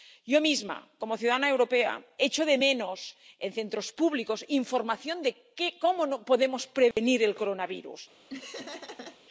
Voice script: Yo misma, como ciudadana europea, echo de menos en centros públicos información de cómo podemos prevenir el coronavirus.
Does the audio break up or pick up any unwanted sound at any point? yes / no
yes